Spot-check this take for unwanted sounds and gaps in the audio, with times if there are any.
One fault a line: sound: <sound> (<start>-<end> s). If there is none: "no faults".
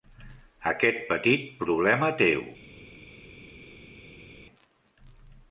no faults